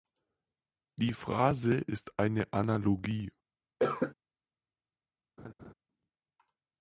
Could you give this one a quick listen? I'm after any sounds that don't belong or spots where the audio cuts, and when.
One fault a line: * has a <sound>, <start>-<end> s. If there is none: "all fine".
* has a cough, 3.8-4.1 s
* has a laugh, 5.4-5.7 s